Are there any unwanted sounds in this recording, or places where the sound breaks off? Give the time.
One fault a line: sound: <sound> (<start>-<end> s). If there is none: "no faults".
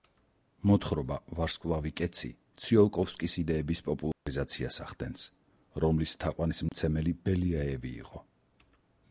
sound: dropout (4.1-4.3 s)
sound: dropout (6.7-6.7 s)